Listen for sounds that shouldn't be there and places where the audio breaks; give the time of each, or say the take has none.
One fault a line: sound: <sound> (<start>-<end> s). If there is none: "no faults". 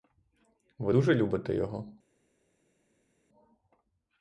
no faults